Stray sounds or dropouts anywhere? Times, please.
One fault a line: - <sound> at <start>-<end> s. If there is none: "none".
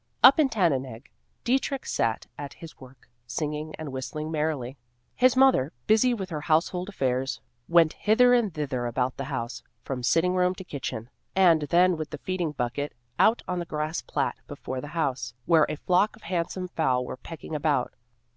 none